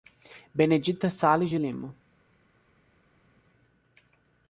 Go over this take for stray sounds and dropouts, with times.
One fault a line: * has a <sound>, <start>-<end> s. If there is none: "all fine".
all fine